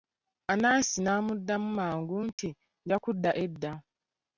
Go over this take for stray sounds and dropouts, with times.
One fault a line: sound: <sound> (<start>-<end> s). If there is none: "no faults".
sound: dropout (2.3-2.4 s)